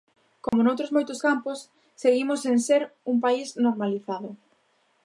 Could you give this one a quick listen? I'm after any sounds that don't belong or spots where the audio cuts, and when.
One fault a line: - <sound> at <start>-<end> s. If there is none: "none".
- dropout at 0.5-0.5 s